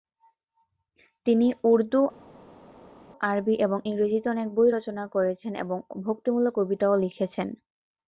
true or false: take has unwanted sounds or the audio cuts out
false